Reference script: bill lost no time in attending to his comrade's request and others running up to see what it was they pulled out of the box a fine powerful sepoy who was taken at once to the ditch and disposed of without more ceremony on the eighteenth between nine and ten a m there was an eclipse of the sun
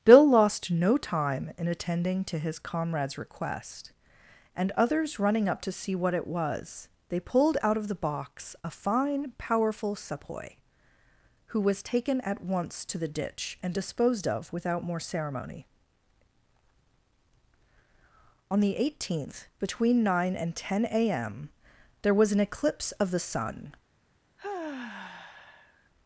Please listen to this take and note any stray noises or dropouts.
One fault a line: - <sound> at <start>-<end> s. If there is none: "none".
- sigh at 24.4-25.9 s